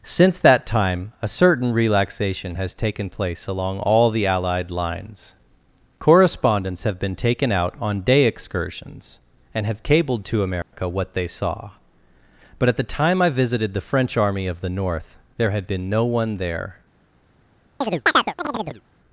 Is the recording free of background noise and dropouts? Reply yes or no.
no